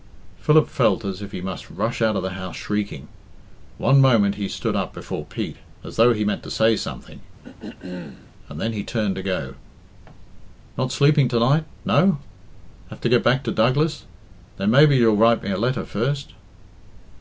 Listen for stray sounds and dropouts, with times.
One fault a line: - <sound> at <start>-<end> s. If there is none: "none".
- throat clearing at 7.4-8.3 s